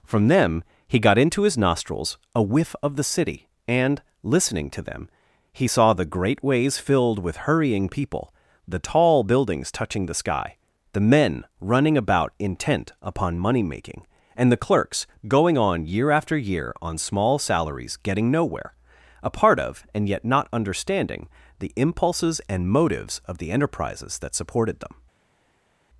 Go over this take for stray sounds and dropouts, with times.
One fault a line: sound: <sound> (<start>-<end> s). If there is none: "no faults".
no faults